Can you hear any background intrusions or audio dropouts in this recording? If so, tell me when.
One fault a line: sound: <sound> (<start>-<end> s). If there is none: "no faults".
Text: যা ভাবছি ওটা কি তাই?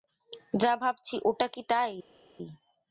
no faults